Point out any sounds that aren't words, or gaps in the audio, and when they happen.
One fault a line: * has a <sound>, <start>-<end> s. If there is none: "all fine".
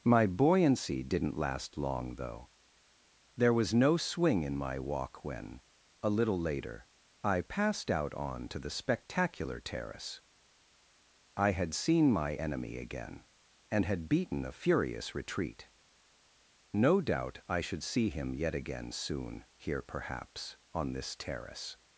all fine